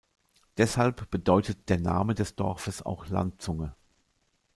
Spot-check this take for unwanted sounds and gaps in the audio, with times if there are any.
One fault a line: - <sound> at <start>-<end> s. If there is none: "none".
none